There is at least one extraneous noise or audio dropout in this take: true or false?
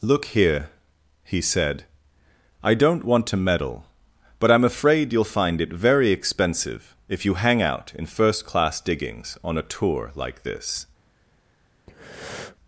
true